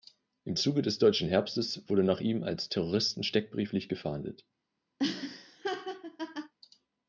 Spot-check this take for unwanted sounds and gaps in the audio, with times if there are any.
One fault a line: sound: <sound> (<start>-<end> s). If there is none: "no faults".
sound: laugh (5.0-6.5 s)